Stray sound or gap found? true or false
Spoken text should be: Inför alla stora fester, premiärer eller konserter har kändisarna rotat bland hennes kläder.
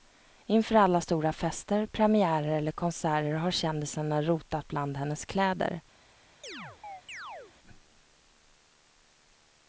true